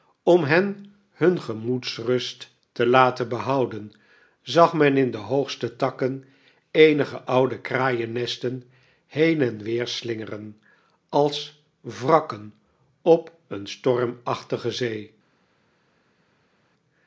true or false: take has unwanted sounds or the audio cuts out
false